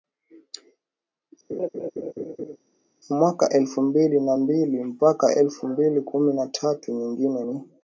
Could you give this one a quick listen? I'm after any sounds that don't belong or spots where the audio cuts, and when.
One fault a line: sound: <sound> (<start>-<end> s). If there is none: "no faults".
sound: laugh (1.5-2.6 s)